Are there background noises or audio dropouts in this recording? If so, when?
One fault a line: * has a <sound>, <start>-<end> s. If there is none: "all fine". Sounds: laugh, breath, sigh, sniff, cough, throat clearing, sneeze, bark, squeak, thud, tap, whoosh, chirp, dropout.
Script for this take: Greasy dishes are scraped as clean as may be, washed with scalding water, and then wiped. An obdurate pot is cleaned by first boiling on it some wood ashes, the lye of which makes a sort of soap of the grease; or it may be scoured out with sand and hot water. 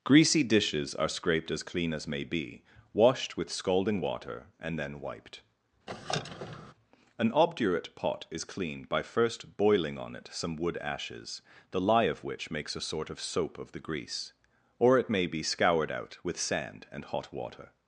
* has a squeak, 5.9-6.7 s